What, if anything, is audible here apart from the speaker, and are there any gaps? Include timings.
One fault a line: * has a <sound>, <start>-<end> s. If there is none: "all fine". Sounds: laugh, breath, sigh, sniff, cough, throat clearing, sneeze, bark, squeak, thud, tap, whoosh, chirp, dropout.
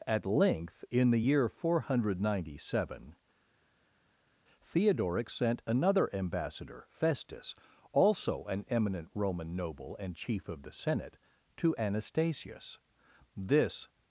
all fine